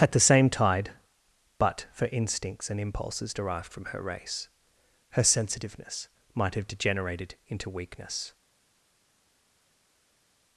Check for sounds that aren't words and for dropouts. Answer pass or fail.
pass